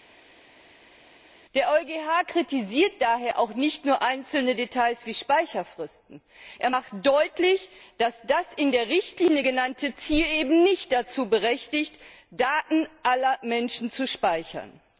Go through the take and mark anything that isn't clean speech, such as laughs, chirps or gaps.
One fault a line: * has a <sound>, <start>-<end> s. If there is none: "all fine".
all fine